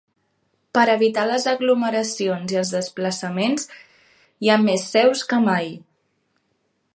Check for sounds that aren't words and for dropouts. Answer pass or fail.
pass